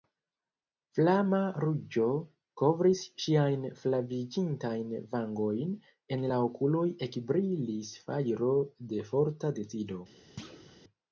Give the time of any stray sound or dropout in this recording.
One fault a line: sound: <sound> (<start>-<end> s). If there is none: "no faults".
sound: thud (10.4-10.8 s)